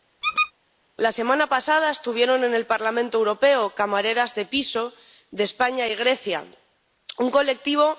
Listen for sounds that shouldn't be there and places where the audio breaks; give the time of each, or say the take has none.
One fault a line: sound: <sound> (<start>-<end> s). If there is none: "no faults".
sound: squeak (0.2-0.5 s)